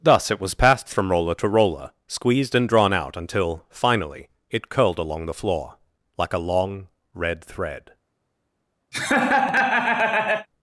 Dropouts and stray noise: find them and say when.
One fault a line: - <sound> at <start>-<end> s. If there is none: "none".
- laugh at 8.9-10.5 s